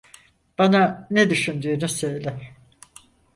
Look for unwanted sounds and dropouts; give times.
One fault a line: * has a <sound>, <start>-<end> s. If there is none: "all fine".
all fine